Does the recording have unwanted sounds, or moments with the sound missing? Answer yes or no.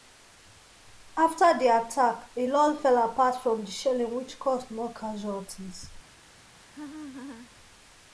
yes